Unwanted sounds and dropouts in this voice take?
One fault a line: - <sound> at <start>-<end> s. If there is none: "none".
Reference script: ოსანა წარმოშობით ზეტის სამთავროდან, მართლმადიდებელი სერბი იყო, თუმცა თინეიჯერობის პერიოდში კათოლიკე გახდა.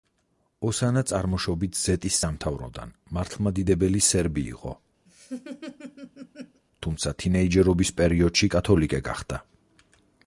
- laugh at 5.1-6.6 s